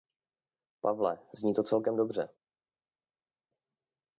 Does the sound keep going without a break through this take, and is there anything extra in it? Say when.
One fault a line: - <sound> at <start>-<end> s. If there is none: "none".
none